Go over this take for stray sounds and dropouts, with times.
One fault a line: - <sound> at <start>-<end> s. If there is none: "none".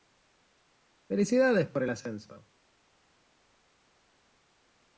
none